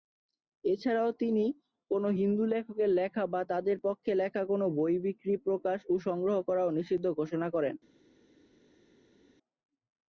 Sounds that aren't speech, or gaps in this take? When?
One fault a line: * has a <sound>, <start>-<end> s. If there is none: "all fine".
all fine